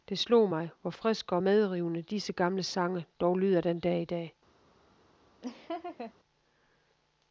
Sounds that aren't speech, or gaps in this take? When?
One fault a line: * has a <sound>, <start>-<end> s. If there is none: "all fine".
* has a laugh, 5.4-6.1 s